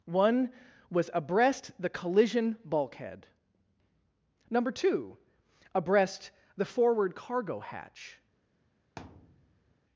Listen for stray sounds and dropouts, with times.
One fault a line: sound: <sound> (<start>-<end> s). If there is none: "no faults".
sound: thud (9.0-9.8 s)